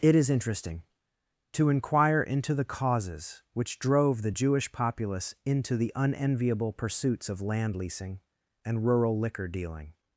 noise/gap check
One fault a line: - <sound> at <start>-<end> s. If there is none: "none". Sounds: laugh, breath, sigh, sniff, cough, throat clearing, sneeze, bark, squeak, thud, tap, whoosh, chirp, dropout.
none